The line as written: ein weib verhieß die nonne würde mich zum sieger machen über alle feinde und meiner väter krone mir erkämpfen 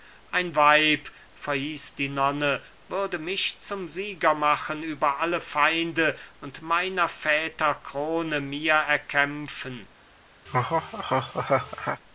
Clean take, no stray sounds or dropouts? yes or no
no